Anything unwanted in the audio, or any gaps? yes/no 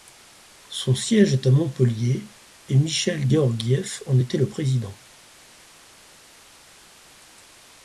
no